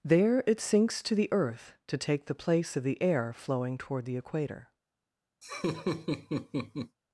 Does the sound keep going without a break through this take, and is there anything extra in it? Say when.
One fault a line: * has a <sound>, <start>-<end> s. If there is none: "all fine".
* has a laugh, 5.4-7.0 s